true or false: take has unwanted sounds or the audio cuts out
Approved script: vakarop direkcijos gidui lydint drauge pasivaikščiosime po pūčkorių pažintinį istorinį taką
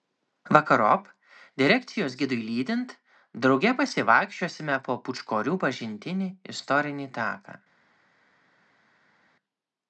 false